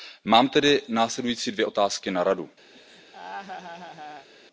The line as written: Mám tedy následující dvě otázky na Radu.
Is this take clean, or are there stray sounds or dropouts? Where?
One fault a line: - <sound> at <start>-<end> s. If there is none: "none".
- laugh at 2.7-4.3 s